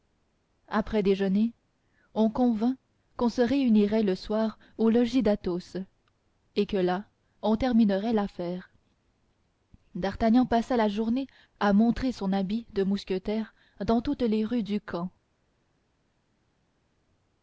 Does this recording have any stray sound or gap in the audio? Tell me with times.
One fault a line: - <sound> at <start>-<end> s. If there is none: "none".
none